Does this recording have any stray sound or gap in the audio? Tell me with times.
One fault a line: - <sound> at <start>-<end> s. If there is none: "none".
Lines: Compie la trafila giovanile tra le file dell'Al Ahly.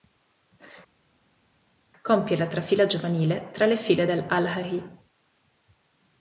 none